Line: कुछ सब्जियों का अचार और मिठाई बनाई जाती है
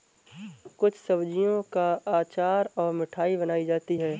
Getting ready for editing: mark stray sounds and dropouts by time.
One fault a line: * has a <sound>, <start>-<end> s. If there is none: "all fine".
all fine